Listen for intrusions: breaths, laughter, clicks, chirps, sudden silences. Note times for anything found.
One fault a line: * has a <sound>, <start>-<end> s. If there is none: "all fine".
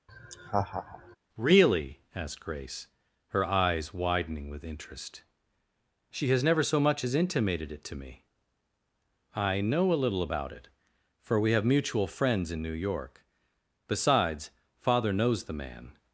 * has a laugh, 0.1-1.2 s